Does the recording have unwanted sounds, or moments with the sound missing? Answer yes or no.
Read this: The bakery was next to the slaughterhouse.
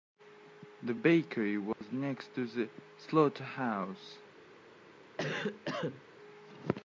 yes